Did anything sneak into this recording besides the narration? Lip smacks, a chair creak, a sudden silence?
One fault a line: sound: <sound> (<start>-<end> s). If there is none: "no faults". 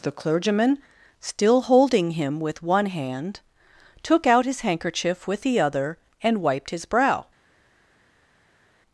no faults